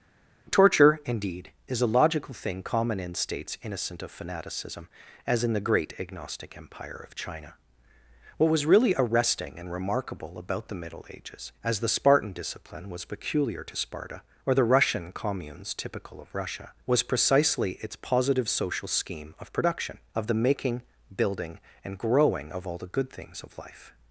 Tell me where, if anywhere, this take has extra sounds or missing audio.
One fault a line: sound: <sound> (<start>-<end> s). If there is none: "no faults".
no faults